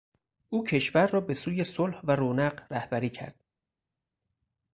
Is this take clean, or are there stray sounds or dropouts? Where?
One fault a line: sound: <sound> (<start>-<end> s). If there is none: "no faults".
no faults